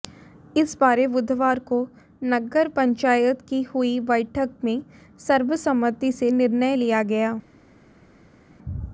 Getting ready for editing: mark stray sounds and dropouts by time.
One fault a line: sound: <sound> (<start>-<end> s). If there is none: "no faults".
no faults